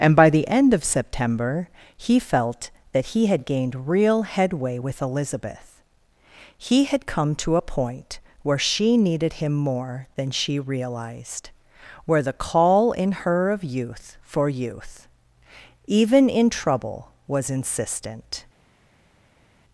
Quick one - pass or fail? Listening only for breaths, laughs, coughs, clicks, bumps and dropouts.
pass